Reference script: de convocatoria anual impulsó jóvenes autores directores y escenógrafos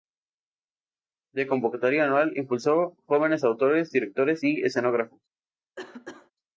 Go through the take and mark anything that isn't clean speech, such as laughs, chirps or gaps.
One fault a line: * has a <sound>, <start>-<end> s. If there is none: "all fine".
* has a cough, 5.8-6.3 s